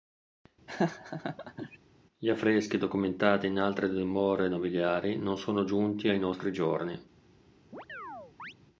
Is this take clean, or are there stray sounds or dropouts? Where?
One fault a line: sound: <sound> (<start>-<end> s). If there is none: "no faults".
sound: laugh (0.7-1.8 s)
sound: chirp (7.7-8.5 s)